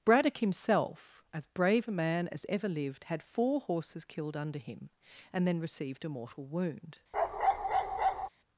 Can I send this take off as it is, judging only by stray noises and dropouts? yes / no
no